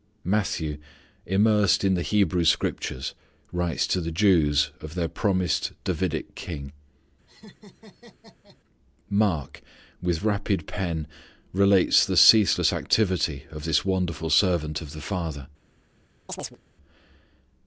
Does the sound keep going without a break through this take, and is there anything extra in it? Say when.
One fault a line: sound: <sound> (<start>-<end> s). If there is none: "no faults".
sound: laugh (7.3-8.6 s)
sound: chirp (16.3-16.6 s)